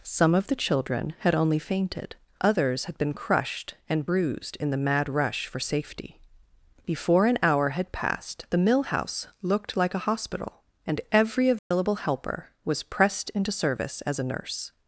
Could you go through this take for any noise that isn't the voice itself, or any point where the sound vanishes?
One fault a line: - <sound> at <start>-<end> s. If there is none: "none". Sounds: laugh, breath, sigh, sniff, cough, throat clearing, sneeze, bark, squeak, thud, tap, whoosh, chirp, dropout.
- dropout at 11.6-11.7 s